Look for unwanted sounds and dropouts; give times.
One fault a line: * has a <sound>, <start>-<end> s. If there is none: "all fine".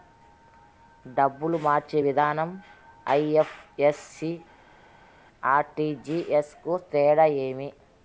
all fine